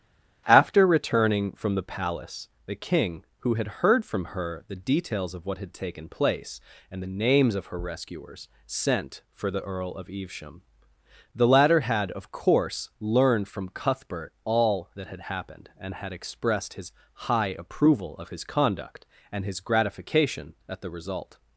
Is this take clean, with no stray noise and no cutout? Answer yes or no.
yes